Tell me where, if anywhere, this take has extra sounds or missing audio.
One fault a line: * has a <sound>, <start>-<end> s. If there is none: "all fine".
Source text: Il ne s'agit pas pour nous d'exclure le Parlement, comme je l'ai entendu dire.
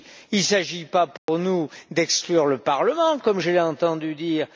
* has a dropout, 1.2-1.3 s